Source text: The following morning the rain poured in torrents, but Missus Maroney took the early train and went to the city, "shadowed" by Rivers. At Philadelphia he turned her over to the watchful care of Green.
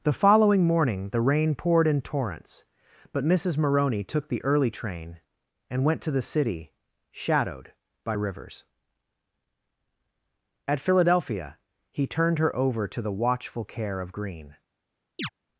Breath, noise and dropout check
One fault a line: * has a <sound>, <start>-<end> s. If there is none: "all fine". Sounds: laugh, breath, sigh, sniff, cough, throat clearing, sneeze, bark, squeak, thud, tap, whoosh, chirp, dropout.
* has a chirp, 15.2-15.3 s